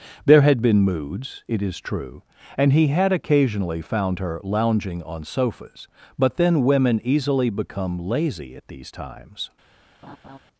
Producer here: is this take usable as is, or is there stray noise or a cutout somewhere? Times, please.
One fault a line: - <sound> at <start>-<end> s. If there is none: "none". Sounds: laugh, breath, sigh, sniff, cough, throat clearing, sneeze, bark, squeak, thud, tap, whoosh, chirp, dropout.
- laugh at 10.0-10.4 s